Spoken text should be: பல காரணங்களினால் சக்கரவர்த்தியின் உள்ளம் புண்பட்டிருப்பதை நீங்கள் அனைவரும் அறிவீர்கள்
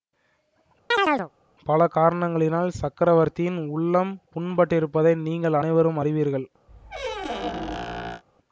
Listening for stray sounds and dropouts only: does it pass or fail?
fail